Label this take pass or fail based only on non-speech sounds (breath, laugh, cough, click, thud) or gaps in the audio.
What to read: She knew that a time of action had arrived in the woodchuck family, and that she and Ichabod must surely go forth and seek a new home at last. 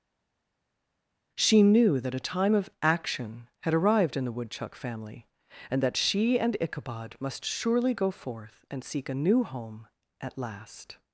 pass